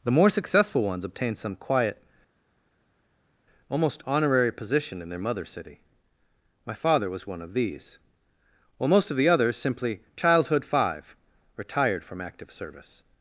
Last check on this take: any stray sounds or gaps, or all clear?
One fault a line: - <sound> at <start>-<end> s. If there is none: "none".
none